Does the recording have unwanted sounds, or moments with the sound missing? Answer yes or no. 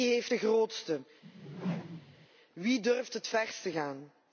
yes